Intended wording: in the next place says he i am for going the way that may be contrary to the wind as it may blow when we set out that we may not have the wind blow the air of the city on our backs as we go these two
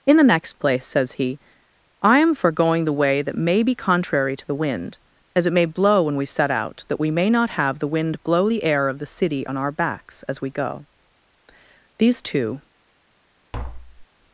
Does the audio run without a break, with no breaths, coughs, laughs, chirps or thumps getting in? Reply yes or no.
no